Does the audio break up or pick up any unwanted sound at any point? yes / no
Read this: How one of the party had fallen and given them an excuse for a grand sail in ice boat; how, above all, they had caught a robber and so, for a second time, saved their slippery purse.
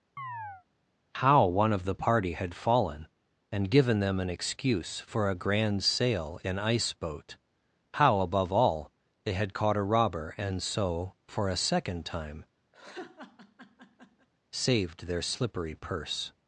yes